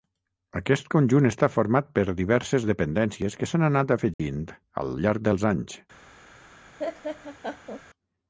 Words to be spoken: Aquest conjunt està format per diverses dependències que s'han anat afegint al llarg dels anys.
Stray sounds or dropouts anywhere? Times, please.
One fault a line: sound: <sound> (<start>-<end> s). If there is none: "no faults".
sound: dropout (4.1-4.2 s)
sound: laugh (6.8-7.8 s)